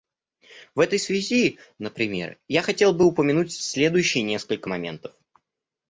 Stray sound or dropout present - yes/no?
no